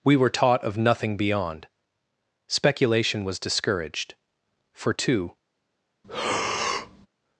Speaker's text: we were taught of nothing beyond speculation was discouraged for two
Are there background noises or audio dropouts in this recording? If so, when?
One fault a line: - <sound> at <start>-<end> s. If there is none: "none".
- breath at 6.0-7.1 s